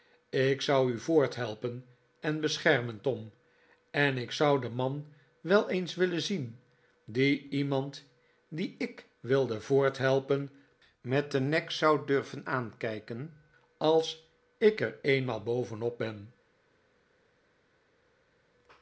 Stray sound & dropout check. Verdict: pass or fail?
pass